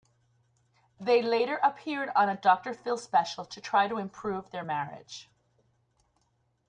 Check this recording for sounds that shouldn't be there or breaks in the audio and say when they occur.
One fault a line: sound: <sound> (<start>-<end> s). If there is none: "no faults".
no faults